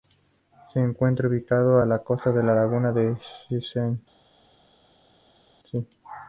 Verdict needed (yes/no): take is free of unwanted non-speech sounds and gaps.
yes